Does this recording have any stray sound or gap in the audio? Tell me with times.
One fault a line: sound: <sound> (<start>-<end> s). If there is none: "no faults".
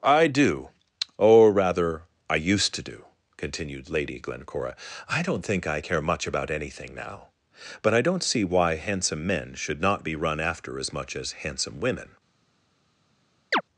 sound: chirp (13.5-13.6 s)